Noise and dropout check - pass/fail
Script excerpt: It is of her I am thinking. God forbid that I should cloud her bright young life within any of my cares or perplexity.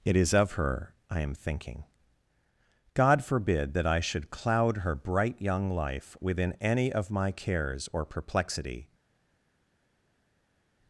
pass